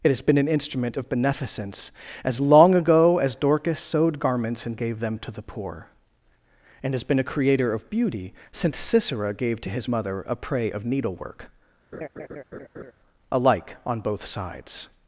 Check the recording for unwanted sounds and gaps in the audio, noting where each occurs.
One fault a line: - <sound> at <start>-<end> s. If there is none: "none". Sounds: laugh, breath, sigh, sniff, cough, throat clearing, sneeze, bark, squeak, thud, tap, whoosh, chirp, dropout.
- laugh at 11.9-12.9 s